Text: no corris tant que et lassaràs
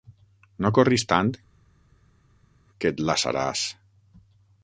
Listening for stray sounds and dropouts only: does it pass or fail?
pass